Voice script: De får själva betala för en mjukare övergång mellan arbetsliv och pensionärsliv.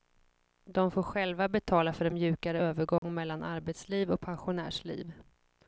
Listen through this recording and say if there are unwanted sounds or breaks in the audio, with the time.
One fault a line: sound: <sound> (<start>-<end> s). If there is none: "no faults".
sound: dropout (3.0-3.0 s)